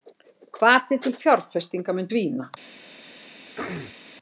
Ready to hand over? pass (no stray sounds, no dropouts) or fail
fail